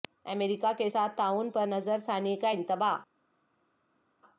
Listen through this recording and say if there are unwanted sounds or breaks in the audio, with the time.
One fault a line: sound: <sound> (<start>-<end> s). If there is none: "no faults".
no faults